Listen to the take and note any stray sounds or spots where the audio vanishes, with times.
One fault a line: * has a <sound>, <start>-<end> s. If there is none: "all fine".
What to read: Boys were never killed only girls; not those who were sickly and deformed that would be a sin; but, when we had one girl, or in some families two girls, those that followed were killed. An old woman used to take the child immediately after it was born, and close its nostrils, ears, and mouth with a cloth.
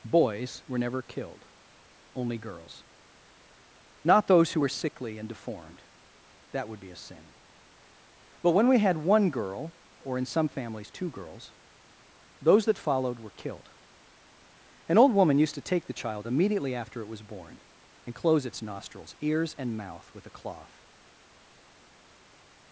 all fine